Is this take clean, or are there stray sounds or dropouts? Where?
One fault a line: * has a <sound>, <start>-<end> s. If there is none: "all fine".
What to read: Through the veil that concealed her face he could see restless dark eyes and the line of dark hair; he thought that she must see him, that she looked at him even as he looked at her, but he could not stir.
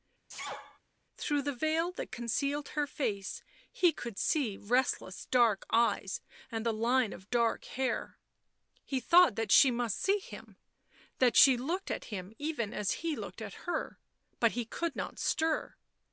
* has a sneeze, 0.3-0.8 s